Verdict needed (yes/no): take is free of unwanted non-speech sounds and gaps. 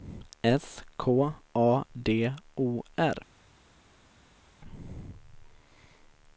yes